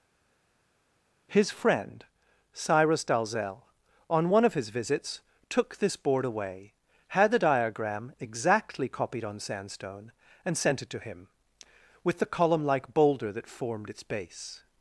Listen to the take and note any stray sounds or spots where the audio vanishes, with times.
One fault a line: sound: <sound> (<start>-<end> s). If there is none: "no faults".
no faults